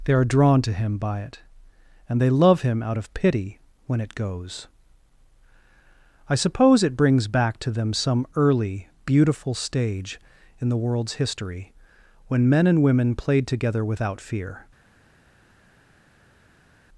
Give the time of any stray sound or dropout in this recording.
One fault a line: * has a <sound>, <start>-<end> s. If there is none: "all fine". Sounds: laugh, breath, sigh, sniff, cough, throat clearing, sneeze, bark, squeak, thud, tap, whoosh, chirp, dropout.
all fine